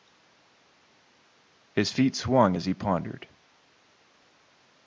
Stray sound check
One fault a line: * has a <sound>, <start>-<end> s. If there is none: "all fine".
all fine